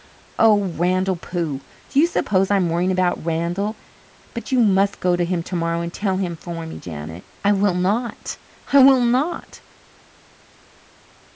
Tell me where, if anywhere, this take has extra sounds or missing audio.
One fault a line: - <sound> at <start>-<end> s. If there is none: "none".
none